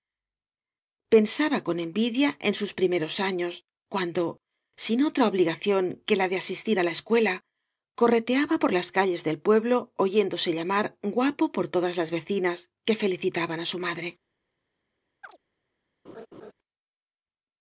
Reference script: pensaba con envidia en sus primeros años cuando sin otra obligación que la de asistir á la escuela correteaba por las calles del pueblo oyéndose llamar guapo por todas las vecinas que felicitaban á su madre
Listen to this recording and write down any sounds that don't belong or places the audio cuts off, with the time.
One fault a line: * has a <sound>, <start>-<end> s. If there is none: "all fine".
* has a chirp, 15.2-15.4 s
* has a laugh, 16.0-16.5 s